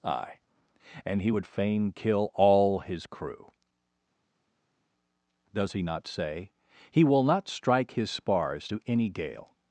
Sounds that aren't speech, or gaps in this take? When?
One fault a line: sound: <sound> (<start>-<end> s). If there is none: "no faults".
no faults